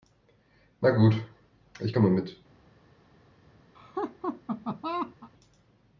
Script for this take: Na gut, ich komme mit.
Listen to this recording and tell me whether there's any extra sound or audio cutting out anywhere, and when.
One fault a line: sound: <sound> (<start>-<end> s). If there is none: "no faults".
sound: laugh (3.7-5.3 s)